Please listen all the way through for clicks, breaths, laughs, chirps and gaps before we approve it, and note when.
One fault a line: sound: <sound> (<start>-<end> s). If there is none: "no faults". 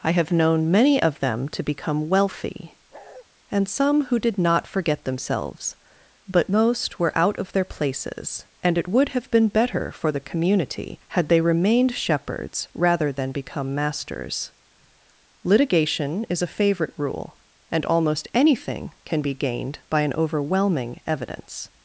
sound: bark (2.9-3.3 s)